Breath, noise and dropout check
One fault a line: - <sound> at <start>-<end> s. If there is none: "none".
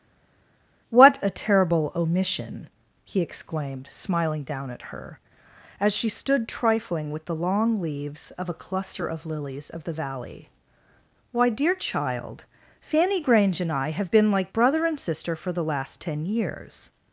none